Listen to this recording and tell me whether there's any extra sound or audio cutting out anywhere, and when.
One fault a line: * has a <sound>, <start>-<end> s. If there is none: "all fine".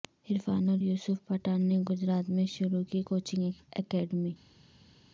all fine